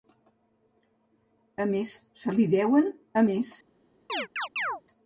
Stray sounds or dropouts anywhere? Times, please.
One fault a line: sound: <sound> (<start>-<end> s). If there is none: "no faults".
sound: chirp (4.1-4.8 s)